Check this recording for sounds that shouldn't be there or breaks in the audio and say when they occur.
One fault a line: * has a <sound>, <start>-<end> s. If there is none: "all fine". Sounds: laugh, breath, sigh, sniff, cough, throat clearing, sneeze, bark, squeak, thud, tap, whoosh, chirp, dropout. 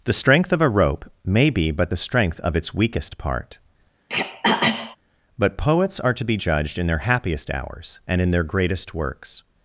* has a throat clearing, 4.1-5.0 s